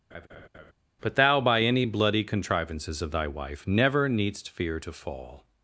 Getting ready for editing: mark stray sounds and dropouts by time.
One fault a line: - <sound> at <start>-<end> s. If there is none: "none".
- laugh at 0.1-0.7 s